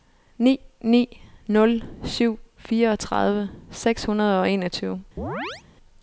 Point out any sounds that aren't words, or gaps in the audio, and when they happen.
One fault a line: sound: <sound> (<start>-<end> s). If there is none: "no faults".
sound: chirp (5.2-5.6 s)